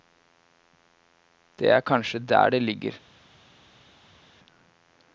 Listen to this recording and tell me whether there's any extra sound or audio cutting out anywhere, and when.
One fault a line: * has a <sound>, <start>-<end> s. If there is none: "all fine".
all fine